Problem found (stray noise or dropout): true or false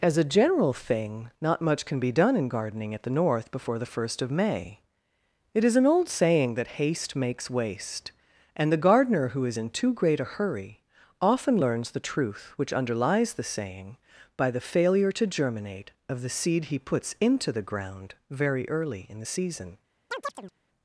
true